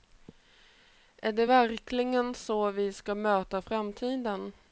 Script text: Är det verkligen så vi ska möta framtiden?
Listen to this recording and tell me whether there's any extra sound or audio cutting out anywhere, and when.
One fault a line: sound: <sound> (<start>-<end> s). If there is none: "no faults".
no faults